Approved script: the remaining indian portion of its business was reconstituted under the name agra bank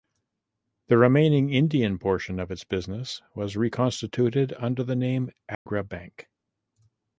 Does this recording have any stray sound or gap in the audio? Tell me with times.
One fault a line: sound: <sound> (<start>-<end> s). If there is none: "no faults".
sound: dropout (5.5-5.7 s)